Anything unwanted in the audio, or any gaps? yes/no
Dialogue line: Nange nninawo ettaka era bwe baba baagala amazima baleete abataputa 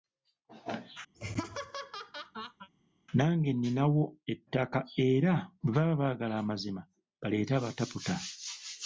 yes